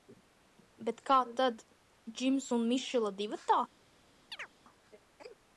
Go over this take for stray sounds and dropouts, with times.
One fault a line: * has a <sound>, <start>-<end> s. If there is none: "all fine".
* has a chirp, 4.3-4.5 s